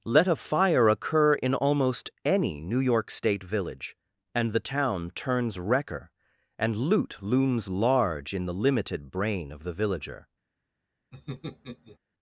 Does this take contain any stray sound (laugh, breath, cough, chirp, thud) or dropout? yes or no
yes